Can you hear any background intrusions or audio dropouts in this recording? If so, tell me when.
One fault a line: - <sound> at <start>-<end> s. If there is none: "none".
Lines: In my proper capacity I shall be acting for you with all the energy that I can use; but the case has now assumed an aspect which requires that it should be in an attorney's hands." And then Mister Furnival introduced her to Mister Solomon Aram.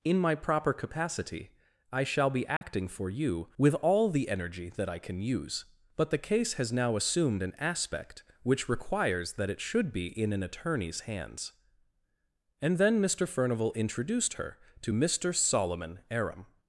- dropout at 2.6-2.6 s